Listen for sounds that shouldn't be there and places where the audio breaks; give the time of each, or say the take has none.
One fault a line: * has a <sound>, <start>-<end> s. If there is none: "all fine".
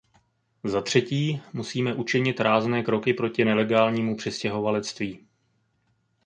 all fine